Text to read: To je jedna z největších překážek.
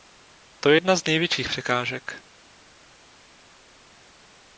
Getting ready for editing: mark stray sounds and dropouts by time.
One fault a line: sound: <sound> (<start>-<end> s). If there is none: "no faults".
no faults